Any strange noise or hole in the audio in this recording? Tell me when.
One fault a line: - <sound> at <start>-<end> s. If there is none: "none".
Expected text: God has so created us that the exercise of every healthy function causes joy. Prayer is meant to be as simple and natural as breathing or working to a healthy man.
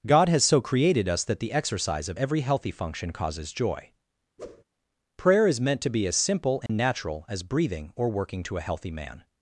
- whoosh at 4.4-4.6 s
- dropout at 6.7-6.7 s